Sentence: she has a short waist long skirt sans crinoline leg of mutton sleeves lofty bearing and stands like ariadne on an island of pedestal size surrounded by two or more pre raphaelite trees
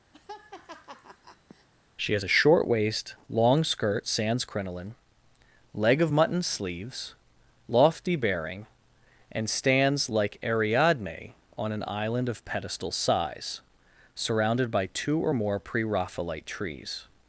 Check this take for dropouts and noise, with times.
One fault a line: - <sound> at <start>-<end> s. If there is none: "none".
- laugh at 0.1-1.7 s